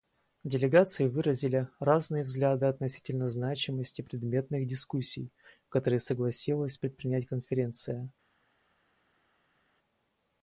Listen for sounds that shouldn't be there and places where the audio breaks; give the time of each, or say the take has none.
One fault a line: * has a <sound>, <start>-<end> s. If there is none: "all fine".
all fine